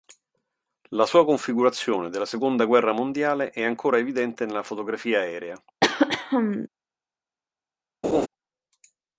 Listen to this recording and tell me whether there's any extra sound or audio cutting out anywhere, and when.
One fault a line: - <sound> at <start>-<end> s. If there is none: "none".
- throat clearing at 5.8-6.7 s
- laugh at 8.0-8.3 s